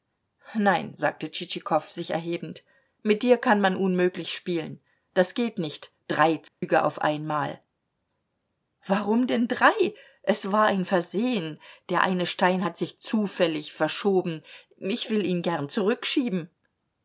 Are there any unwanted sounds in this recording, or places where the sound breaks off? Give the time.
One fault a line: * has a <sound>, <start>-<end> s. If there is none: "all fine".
* has a dropout, 6.5-6.6 s